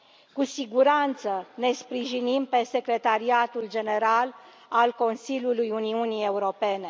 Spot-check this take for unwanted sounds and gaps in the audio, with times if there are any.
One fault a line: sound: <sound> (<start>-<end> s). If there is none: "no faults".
no faults